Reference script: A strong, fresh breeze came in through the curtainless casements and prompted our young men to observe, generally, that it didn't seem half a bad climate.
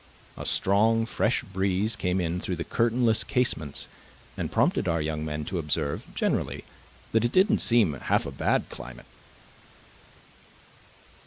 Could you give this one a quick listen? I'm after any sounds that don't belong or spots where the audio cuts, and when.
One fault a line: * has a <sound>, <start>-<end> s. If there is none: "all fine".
all fine